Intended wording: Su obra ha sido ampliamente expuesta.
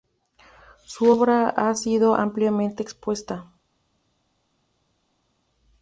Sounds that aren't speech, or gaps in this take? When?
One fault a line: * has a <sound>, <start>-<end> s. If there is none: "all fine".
all fine